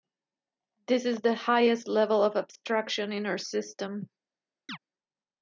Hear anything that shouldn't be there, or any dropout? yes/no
yes